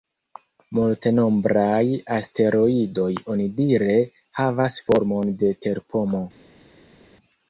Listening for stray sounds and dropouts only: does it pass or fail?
pass